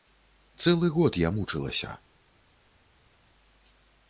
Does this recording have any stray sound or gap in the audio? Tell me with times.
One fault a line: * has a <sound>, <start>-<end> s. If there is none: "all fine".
all fine